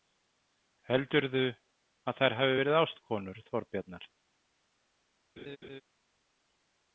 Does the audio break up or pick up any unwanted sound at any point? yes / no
yes